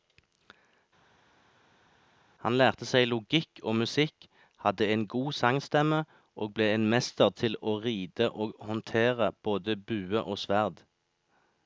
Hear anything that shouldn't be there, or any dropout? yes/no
no